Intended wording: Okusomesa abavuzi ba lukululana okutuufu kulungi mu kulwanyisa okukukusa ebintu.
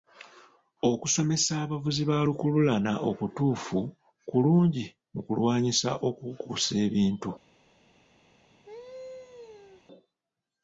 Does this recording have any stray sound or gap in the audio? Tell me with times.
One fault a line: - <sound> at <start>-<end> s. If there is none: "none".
- laugh at 8.7-9.8 s